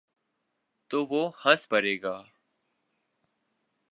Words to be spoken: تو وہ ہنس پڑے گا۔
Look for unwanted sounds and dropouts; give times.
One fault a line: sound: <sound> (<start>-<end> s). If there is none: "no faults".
no faults